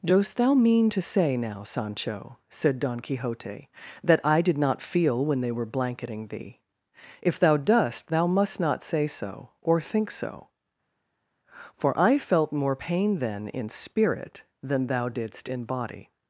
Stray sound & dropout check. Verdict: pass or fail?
pass